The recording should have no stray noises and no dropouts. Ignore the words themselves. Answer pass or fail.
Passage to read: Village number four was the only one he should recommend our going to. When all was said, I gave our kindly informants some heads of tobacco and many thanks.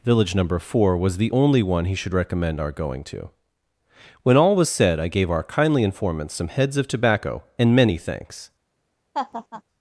fail